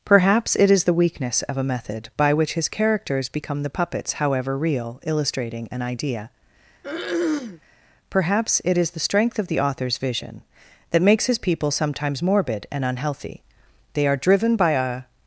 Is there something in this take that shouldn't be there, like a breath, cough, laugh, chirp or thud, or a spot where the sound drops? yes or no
yes